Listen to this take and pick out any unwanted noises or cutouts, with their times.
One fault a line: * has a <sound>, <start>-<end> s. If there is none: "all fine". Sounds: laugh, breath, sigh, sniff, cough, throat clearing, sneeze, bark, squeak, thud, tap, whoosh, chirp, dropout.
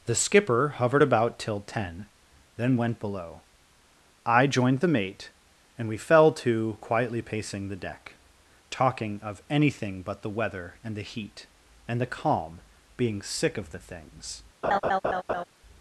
* has a laugh, 14.6-15.4 s